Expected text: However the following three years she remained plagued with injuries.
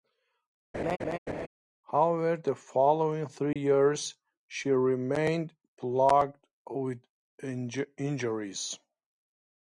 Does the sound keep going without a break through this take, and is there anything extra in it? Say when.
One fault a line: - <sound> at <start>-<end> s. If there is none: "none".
- laugh at 0.7-1.5 s
- dropout at 3.5-3.6 s